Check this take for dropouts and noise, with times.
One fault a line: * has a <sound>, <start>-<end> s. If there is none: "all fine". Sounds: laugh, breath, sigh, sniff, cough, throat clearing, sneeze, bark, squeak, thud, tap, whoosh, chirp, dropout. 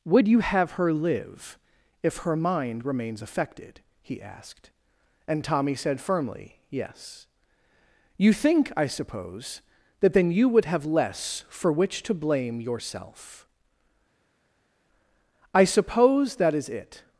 all fine